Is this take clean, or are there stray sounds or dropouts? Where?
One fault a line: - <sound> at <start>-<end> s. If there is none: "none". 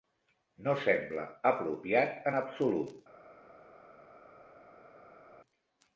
none